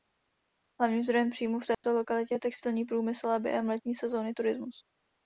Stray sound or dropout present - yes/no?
yes